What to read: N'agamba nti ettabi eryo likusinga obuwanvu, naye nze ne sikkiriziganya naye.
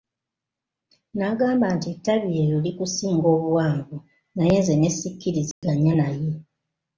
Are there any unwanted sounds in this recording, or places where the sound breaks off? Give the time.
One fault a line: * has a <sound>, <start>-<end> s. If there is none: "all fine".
* has a dropout, 5.5-5.6 s